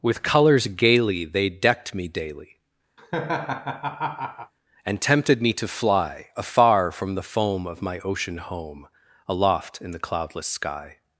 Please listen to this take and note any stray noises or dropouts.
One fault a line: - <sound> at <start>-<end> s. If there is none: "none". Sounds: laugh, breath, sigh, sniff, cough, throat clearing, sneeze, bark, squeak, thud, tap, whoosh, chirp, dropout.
- laugh at 3.0-4.5 s